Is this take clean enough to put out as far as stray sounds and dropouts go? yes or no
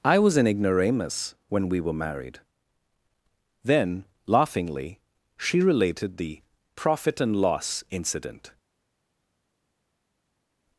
yes